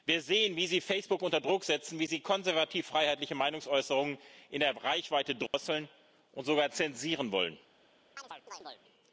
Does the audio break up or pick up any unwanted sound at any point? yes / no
yes